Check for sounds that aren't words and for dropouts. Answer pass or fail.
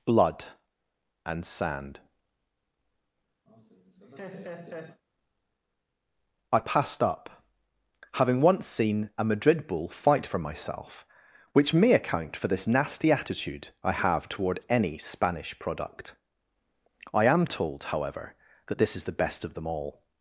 fail